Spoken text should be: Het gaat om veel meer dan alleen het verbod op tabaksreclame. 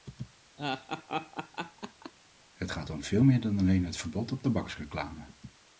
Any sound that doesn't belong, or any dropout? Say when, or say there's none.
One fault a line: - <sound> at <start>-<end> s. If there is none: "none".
- laugh at 0.6-2.1 s